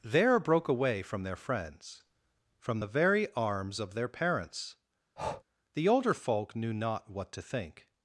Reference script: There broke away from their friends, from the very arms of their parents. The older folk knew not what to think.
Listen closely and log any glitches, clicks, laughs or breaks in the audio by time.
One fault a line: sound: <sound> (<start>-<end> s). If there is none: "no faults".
sound: breath (5.2-5.4 s)